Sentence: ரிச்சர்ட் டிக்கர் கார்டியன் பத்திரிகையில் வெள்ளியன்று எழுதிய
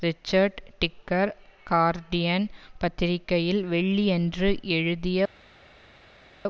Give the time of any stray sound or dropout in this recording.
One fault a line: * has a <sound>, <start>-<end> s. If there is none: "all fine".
all fine